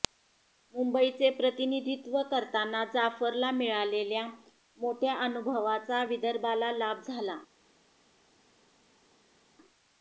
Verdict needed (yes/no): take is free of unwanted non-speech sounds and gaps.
yes